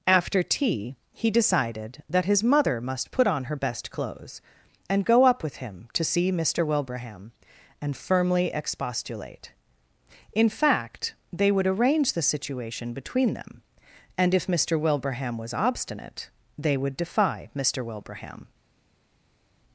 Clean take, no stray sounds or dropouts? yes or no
yes